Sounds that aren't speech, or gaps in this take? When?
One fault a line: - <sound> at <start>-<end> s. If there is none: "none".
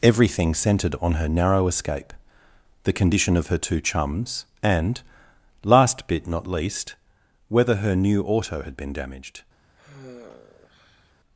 - sigh at 9.8-11.1 s